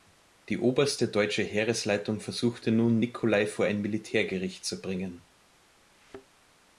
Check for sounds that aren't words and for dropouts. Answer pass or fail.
fail